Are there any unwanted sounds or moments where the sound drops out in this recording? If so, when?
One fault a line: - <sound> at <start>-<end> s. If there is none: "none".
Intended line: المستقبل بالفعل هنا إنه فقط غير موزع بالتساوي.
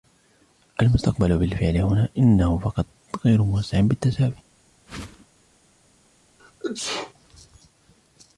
- whoosh at 4.9-5.3 s
- sneeze at 6.4-7.1 s